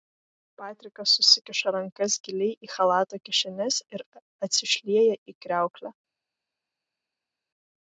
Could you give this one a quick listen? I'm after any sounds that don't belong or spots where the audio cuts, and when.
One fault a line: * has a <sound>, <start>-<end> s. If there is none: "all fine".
all fine